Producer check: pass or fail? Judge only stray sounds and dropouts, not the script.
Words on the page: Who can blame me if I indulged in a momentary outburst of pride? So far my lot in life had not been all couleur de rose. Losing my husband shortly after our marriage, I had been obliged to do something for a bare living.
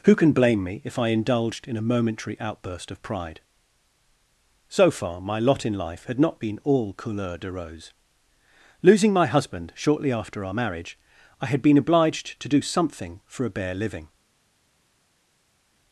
pass